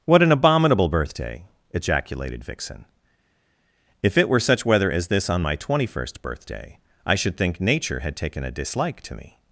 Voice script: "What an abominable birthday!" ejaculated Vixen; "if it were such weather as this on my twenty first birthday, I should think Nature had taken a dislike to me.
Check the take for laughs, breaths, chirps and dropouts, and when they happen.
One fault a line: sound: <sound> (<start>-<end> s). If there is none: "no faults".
no faults